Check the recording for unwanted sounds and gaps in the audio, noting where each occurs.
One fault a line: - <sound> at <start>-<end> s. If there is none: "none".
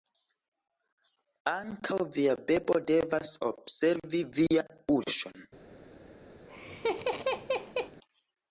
- laugh at 6.4-8.0 s